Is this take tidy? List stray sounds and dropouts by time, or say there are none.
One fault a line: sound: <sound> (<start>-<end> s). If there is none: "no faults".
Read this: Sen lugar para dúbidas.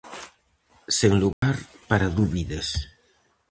sound: dropout (1.3-1.4 s)